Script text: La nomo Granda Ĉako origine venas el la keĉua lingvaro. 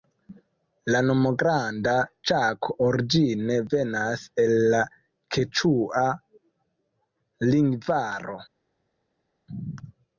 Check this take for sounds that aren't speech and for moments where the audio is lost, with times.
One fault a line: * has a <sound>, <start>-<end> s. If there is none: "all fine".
all fine